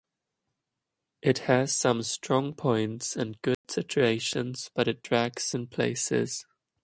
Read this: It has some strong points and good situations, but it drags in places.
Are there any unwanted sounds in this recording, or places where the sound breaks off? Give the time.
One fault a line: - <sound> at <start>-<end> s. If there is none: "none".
- dropout at 3.5-3.6 s